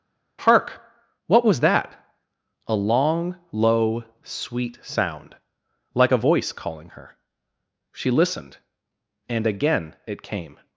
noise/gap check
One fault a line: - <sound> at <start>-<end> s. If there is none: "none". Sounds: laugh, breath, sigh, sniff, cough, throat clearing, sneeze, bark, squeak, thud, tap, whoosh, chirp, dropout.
none